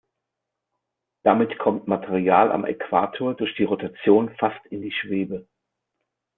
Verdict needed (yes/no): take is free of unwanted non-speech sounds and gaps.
yes